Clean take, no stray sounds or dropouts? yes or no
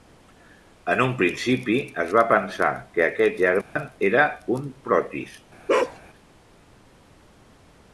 no